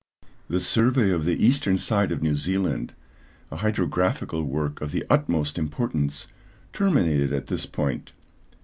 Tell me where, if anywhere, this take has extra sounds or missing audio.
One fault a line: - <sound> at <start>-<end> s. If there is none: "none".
none